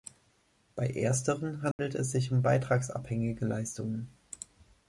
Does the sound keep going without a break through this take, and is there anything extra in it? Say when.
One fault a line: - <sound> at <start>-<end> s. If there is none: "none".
- dropout at 1.7-1.8 s